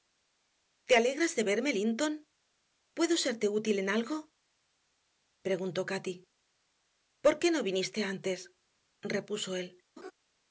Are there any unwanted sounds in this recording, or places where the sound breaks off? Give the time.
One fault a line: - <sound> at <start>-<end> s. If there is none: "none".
- laugh at 10.0-10.1 s